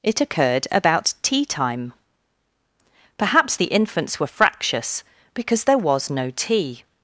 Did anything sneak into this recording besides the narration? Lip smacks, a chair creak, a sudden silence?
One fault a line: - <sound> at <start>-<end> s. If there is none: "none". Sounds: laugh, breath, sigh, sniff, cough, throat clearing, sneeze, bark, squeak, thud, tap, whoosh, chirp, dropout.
none